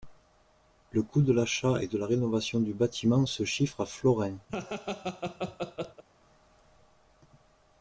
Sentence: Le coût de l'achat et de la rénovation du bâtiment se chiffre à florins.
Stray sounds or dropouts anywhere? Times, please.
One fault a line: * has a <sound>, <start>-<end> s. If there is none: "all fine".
* has a laugh, 4.5-6.0 s